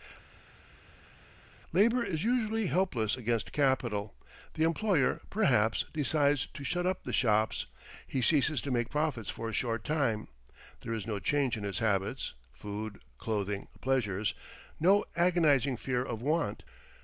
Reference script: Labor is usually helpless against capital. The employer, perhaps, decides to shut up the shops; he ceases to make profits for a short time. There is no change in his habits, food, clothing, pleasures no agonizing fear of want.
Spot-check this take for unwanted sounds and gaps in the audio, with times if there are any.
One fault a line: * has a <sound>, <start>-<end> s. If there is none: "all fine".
all fine